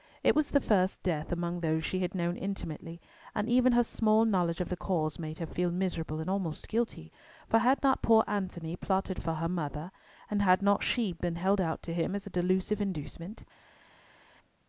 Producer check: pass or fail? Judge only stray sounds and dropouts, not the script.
pass